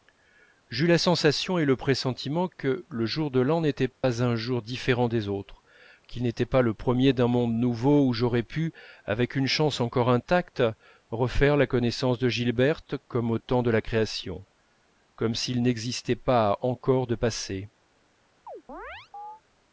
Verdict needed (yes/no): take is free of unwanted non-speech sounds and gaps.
no